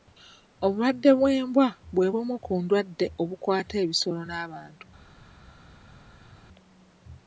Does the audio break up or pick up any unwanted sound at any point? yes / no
no